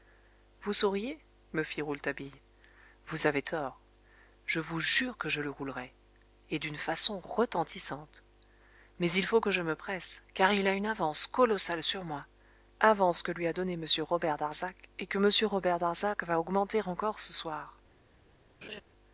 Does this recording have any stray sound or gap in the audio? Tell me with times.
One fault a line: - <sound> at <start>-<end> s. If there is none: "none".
- laugh at 18.6-18.8 s